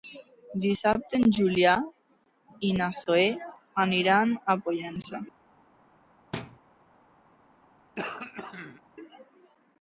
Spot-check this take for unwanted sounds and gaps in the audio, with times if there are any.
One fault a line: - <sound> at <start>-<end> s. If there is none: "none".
- thud at 6.3-6.6 s
- throat clearing at 8.0-8.8 s